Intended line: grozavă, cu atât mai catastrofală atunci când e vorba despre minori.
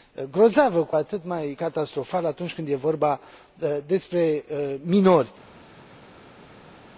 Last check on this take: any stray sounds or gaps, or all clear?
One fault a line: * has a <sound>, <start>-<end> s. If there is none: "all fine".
all fine